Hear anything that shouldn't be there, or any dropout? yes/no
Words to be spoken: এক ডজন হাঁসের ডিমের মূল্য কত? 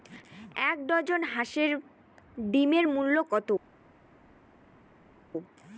no